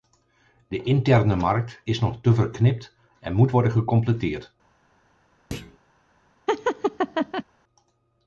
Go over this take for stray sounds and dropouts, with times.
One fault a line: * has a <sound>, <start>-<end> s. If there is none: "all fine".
* has a thud, 5.5-5.8 s
* has a laugh, 6.5-7.4 s